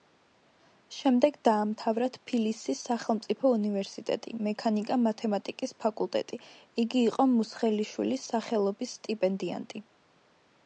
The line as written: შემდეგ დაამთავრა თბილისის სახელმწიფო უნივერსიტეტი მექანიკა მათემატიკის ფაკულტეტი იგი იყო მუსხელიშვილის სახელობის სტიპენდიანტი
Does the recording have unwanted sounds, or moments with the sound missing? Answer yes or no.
no